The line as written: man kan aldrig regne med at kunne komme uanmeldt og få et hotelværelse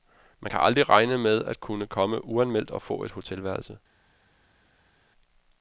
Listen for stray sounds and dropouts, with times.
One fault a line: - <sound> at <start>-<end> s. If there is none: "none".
none